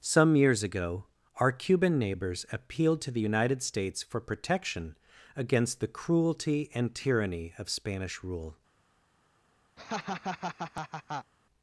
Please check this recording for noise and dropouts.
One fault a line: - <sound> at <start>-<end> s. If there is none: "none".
- laugh at 9.8-11.3 s